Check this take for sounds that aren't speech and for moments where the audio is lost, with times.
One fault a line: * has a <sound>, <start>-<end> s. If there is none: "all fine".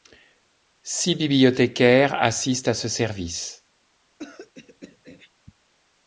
* has a throat clearing, 4.2-5.3 s